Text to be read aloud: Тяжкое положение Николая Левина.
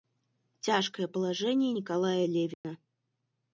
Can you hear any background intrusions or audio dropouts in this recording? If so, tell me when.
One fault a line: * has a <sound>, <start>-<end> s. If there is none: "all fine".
* has a dropout, 2.5-2.6 s